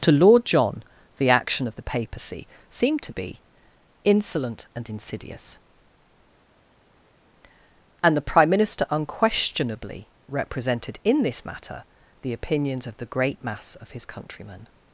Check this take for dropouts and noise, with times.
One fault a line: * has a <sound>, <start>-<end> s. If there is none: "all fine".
all fine